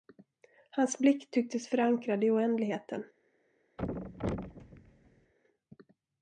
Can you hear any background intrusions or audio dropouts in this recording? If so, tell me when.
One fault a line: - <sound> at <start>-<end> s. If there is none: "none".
- thud at 3.8-5.3 s